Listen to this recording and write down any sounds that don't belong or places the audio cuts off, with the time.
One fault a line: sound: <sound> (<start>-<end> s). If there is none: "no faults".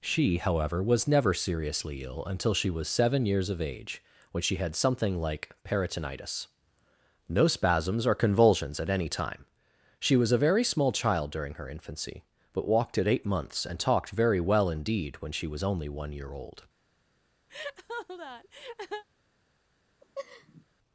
sound: laugh (17.5-19.0 s)
sound: laugh (20.0-20.6 s)